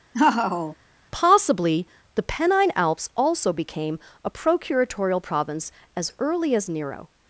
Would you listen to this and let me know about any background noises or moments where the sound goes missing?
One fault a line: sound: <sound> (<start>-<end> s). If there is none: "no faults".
sound: laugh (0.1-0.8 s)